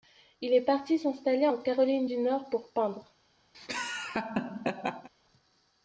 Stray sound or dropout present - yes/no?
yes